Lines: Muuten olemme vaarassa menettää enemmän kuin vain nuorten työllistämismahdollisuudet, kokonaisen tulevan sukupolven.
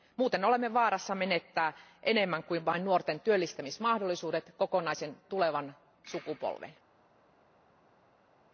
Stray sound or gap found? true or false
false